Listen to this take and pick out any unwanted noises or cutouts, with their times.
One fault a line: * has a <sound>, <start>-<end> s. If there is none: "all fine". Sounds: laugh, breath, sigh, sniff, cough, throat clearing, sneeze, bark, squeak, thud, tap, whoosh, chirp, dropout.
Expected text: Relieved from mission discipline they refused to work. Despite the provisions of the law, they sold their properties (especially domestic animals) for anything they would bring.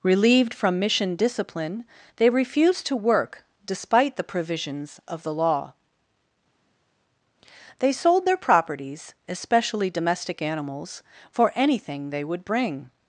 all fine